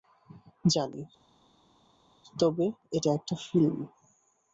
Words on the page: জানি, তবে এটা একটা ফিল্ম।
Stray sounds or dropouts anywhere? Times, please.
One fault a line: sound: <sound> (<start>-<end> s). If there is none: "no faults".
no faults